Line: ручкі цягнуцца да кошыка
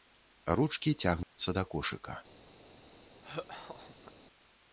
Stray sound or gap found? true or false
true